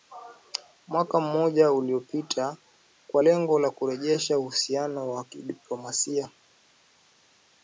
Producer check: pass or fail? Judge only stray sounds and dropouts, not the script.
pass